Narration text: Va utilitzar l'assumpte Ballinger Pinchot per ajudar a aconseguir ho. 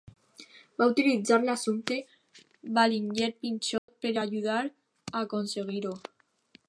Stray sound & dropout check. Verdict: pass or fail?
fail